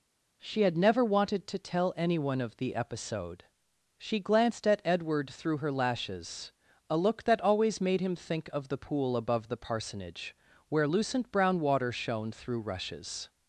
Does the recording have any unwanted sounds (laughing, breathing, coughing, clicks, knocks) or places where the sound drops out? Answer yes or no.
no